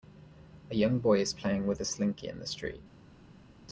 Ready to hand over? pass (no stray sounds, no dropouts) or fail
pass